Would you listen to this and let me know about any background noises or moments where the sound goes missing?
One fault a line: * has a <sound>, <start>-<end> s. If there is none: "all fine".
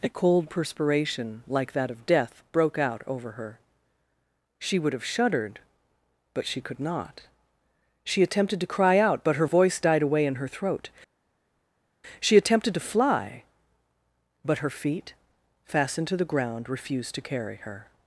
all fine